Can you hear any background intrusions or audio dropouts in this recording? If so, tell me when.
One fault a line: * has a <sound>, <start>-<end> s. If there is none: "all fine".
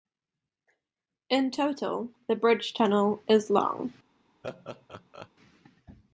* has a laugh, 4.4-5.3 s